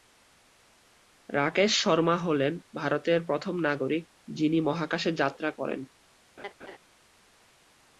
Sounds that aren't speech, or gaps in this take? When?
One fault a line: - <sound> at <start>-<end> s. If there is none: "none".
- laugh at 6.4-6.8 s